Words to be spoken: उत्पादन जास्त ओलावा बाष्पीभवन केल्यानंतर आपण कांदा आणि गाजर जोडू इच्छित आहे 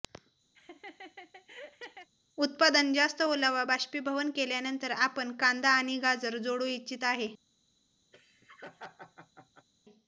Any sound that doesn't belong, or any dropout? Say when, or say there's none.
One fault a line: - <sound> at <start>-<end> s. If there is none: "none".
- laugh at 0.5-2.1 s
- laugh at 8.1-9.7 s